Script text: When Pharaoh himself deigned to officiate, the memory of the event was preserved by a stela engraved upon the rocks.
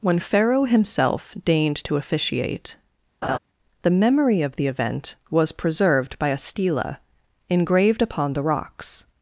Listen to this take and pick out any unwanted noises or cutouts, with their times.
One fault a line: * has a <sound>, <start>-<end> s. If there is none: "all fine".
* has a laugh, 3.2-3.4 s